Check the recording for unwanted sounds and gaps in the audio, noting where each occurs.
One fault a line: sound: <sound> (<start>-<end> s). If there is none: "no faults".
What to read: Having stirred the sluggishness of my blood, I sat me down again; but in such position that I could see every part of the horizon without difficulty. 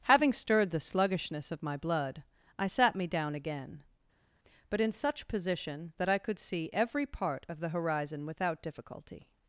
no faults